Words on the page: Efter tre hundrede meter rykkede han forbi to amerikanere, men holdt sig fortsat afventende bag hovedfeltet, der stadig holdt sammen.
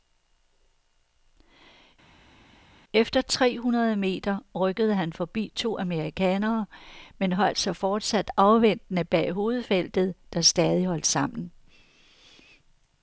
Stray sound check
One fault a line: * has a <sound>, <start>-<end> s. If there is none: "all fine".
all fine